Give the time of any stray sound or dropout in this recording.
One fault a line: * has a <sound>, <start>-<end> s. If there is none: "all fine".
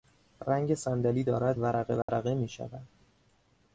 * has a dropout, 2.0-2.1 s